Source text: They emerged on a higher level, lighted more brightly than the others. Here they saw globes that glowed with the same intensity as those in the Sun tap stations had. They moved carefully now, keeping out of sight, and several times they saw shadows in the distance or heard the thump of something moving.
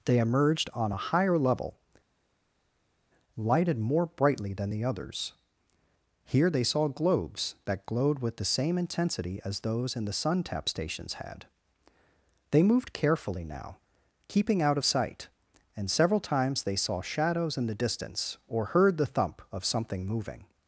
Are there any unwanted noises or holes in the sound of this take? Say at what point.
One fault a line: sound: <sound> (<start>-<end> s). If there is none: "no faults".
no faults